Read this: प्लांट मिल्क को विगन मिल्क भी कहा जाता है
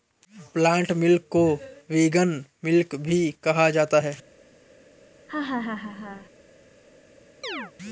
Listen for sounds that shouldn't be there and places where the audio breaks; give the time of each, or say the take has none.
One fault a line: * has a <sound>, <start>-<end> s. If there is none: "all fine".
* has a laugh, 5.3-6.3 s
* has a chirp, 7.4-7.7 s